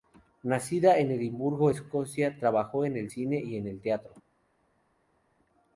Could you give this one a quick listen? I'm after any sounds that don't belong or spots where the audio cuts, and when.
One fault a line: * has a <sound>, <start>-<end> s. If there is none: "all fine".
all fine